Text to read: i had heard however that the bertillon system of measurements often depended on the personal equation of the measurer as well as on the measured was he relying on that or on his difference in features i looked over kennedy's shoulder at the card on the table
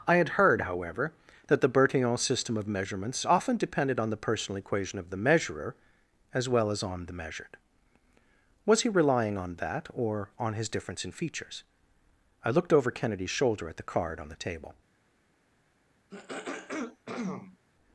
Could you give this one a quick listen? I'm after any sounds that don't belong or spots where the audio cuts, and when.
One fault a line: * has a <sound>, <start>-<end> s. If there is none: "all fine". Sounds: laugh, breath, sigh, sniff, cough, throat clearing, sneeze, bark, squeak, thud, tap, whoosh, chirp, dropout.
* has a throat clearing, 16.1-17.6 s